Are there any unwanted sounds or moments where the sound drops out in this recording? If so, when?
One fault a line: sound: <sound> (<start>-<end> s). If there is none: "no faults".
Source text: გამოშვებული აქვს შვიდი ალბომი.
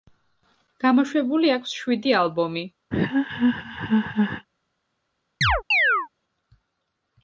sound: laugh (2.9-4.5 s)
sound: chirp (5.4-6.1 s)